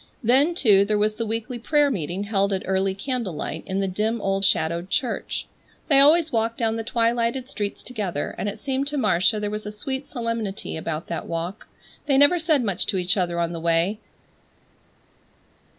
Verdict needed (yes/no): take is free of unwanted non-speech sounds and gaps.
yes